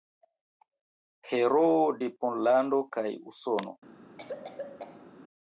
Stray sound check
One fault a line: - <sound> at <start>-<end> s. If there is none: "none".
- cough at 4.2-5.1 s